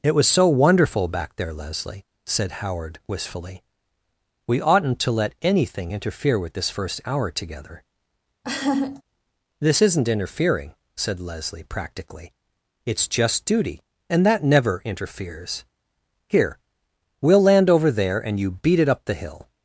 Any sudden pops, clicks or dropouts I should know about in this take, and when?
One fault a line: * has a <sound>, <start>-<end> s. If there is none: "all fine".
* has a laugh, 8.4-9.0 s